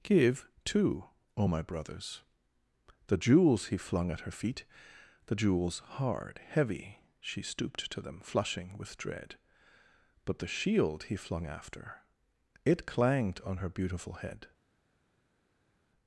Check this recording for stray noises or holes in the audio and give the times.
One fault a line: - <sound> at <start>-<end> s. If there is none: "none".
none